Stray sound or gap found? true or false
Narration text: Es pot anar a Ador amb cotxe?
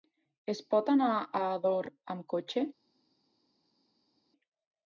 false